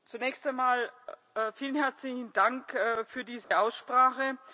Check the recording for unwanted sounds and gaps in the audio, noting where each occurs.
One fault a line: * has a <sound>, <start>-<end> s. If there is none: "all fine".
* has a dropout, 3.4-3.5 s